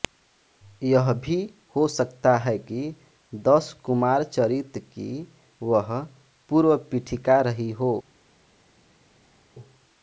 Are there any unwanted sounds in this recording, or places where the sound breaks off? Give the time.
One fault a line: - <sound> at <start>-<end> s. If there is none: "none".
none